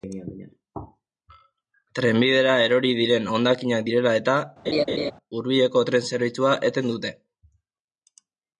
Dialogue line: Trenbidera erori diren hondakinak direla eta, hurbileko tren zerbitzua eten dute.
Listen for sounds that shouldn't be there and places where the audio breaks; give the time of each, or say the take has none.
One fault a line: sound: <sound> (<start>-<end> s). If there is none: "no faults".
sound: laugh (4.7-5.1 s)